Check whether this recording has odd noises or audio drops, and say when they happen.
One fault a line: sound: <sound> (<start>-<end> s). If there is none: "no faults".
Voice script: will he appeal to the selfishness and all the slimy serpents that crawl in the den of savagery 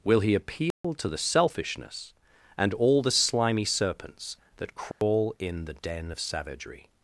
sound: dropout (0.7-0.8 s)
sound: dropout (4.9-5.0 s)